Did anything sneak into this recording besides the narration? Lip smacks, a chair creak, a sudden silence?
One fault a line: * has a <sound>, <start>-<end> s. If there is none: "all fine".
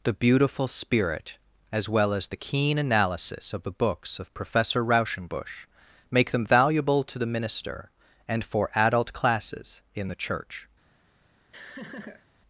* has a laugh, 11.5-12.3 s